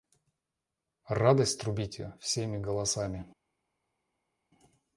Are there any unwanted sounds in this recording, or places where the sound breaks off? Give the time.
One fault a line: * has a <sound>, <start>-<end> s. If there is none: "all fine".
all fine